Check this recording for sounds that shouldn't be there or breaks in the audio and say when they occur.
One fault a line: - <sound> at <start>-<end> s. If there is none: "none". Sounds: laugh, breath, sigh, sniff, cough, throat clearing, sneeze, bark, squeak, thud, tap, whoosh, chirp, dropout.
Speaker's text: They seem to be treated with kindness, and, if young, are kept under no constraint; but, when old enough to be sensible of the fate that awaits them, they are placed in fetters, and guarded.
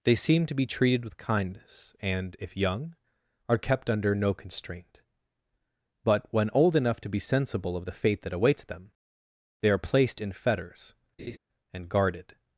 - laugh at 11.2-11.4 s